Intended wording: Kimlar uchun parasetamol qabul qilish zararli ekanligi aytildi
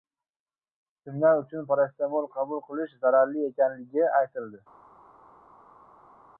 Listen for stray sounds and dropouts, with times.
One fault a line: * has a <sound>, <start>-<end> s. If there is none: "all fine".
all fine